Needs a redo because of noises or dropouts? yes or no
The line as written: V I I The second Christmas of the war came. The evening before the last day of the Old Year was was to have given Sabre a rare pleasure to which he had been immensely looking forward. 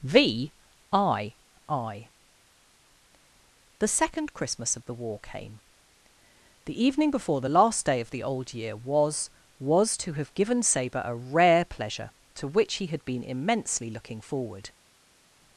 no